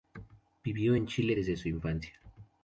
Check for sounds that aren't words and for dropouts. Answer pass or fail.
pass